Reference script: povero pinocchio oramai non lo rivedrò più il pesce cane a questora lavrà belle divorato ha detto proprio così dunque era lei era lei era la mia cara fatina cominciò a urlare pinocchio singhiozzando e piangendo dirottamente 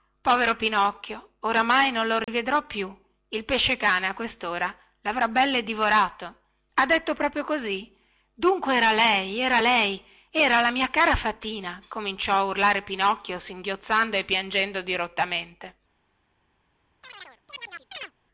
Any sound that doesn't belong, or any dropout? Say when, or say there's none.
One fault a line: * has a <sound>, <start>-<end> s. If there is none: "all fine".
* has a dropout, 2.2-2.3 s
* has a chirp, 17.0-18.1 s